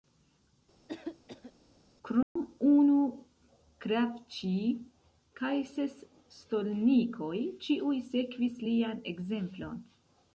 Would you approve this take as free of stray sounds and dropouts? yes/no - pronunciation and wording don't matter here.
no